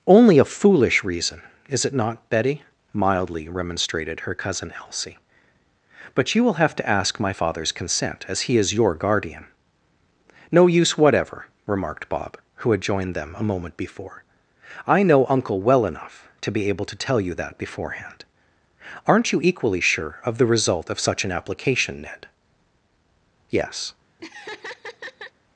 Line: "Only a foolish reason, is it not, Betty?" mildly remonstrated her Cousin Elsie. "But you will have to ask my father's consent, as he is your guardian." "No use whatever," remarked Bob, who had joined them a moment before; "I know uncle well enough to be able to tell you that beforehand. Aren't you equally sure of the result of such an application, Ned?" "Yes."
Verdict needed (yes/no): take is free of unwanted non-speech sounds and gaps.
no